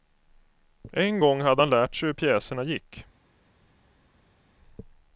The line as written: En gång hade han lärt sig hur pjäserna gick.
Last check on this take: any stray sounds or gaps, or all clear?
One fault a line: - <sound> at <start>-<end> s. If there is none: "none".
none